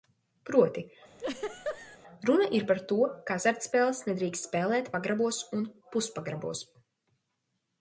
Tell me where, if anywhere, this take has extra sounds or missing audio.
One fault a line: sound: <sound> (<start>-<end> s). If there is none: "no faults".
sound: laugh (1.2-2.0 s)